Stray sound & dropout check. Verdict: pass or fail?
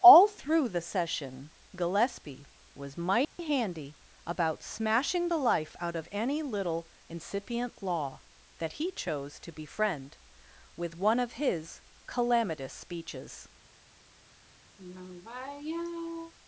fail